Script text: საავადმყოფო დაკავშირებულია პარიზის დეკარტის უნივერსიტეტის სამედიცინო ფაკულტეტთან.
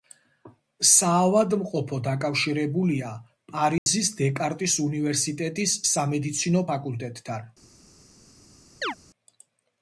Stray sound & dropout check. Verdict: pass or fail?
fail